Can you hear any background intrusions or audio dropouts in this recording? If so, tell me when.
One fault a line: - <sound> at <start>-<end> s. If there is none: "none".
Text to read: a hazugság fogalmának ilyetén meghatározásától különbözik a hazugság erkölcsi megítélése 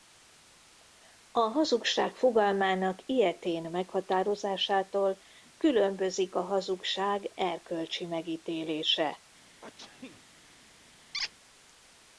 - sneeze at 9.6-10.2 s
- squeak at 11.1-11.3 s